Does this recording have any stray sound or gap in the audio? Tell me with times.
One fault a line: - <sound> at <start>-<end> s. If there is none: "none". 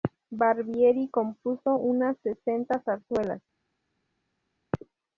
none